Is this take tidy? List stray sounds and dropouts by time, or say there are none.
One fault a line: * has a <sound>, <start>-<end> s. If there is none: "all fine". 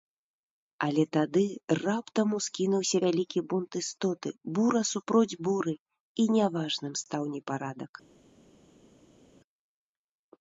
all fine